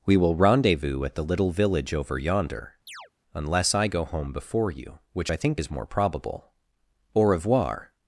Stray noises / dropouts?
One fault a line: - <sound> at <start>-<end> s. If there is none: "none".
- chirp at 2.9-3.1 s